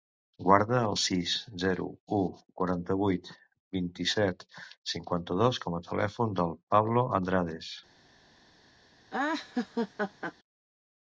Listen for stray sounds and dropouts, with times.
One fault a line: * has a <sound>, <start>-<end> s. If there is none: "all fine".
* has a laugh, 9.1-10.3 s